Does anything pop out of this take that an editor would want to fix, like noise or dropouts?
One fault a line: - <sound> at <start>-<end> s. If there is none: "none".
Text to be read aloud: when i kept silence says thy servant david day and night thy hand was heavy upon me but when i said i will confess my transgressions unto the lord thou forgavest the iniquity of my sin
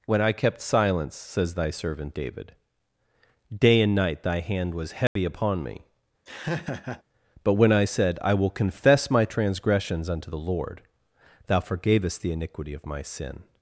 - dropout at 5.1-5.2 s
- laugh at 6.3-7.0 s